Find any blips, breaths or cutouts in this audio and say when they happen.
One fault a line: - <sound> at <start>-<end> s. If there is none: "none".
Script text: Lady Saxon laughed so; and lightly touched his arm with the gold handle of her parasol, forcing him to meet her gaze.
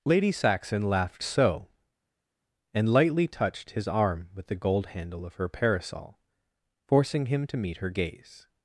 none